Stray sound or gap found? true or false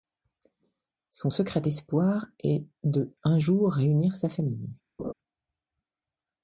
true